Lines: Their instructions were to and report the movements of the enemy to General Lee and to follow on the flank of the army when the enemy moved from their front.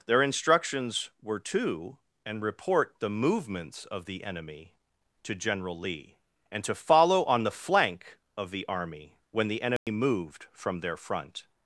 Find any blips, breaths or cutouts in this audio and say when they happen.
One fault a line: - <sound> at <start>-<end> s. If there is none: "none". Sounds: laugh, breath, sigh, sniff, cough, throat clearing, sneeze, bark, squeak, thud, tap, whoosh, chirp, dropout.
- dropout at 9.8-9.9 s